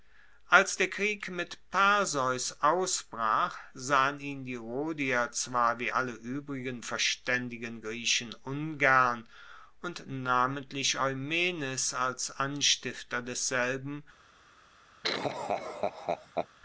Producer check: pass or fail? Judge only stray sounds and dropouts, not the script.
fail